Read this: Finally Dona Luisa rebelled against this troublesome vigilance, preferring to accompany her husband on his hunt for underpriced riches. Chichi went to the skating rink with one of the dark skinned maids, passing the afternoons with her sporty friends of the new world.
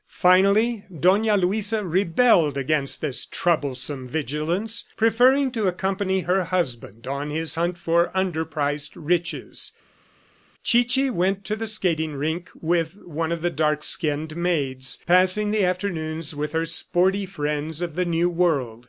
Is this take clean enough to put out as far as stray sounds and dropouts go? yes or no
yes